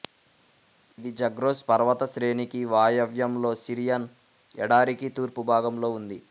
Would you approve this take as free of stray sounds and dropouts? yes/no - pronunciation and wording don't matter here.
yes